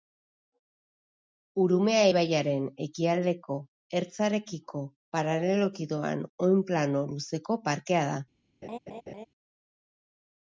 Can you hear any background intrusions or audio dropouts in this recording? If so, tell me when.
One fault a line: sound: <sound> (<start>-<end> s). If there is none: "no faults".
sound: laugh (8.6-9.3 s)